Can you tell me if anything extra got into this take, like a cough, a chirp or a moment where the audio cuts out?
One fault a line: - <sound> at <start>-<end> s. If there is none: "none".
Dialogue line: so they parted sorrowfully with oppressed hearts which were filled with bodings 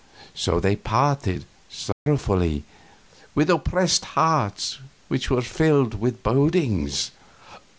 - dropout at 1.9-2.1 s